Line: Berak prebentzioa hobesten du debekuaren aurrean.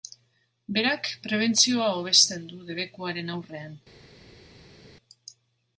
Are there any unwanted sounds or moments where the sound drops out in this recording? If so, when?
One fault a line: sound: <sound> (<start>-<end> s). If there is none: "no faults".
no faults